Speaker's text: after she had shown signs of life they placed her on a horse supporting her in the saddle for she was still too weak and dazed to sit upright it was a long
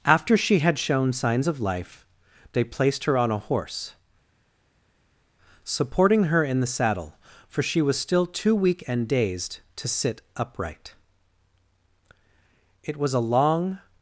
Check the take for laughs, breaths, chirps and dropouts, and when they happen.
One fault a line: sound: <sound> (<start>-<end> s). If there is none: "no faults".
no faults